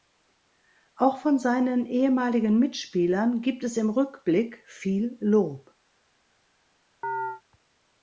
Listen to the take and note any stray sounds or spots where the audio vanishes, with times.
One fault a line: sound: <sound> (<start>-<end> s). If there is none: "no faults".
sound: chirp (7.0-7.4 s)